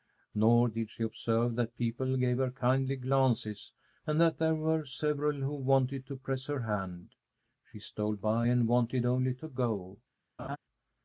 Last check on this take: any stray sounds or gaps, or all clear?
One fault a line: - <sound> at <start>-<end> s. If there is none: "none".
- laugh at 10.4-10.6 s